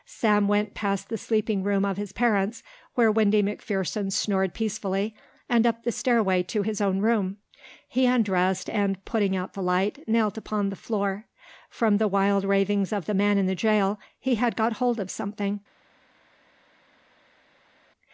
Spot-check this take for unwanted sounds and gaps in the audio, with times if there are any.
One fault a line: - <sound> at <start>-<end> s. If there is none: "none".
none